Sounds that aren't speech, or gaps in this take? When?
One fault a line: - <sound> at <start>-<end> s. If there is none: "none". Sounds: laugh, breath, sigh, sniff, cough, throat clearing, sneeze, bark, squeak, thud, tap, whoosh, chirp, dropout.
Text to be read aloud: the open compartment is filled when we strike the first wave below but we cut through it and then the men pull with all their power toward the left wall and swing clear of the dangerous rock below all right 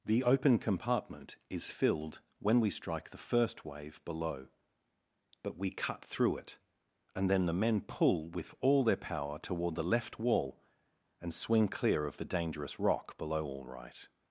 none